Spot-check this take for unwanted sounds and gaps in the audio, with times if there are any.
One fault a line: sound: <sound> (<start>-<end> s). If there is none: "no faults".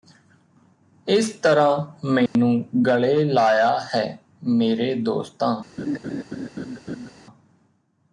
sound: dropout (2.3-2.4 s)
sound: laugh (5.8-7.1 s)